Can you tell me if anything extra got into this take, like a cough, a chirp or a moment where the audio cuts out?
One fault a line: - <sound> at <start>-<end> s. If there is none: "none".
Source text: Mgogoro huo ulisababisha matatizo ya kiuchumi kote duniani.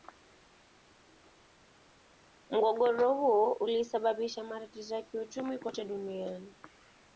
none